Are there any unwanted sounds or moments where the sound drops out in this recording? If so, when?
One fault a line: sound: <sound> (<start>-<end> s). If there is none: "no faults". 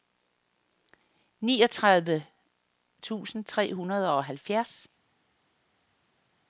no faults